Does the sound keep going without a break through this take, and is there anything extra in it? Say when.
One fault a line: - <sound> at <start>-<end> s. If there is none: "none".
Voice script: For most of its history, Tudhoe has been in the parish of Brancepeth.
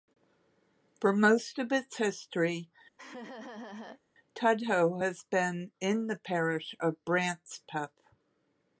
- laugh at 3.0-4.0 s